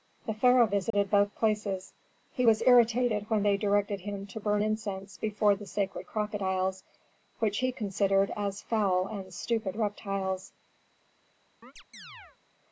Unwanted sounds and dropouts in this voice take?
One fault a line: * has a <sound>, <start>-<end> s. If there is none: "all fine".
* has a dropout, 0.9-0.9 s
* has a chirp, 11.6-12.4 s